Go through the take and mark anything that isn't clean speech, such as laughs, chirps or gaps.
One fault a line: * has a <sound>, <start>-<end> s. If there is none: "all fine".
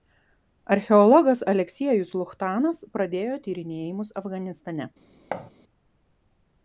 * has a thud, 5.3-5.5 s